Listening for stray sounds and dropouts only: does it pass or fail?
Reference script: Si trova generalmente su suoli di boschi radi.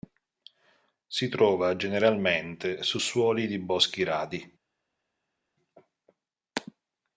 pass